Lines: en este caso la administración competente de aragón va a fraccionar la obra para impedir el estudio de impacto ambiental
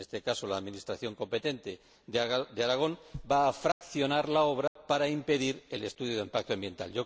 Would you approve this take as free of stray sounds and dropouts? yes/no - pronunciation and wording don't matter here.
no